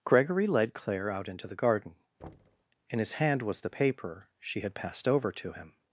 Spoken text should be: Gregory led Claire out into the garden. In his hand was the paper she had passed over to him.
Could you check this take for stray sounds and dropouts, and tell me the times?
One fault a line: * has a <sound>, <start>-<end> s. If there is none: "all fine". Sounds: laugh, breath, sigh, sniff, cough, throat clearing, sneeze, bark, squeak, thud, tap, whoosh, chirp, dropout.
* has a thud, 2.2-2.6 s